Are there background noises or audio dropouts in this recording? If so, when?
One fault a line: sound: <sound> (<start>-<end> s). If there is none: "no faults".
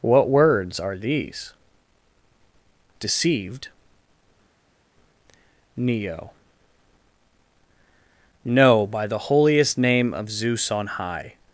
no faults